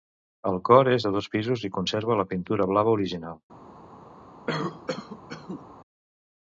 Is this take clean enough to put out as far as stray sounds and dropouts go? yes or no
no